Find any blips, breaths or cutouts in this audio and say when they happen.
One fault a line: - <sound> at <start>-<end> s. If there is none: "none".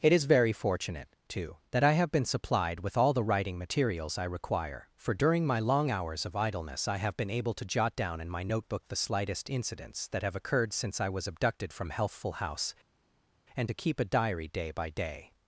none